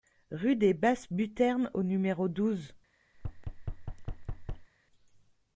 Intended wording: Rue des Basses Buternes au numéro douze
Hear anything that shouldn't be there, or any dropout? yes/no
yes